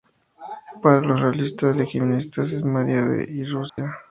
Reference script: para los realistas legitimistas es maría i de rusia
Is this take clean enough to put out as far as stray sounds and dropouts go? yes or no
no